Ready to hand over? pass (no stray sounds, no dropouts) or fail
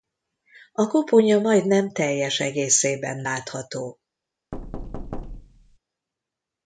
fail